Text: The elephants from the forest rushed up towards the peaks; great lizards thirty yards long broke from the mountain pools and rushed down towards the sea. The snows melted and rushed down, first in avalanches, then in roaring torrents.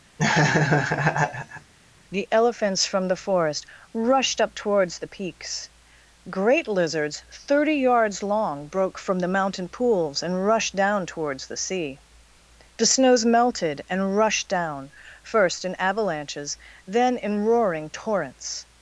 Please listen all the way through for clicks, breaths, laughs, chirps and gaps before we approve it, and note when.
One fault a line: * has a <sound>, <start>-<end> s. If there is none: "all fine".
* has a laugh, 0.2-1.7 s